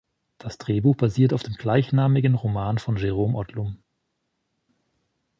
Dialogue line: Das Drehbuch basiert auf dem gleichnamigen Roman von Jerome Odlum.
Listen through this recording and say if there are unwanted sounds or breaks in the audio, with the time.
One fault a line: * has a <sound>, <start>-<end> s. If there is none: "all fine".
all fine